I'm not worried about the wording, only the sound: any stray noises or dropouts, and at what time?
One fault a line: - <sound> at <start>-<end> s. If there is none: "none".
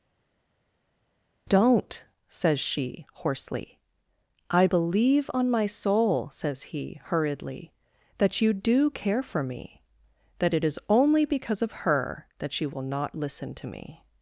none